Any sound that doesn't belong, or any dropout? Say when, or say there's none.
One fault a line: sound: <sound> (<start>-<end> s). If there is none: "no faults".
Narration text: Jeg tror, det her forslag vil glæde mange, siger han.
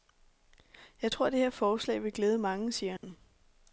sound: dropout (3.0-3.0 s)